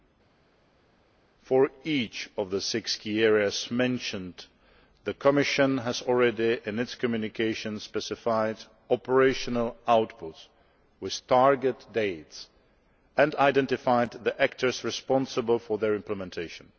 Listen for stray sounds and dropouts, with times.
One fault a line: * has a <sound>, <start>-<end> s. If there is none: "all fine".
all fine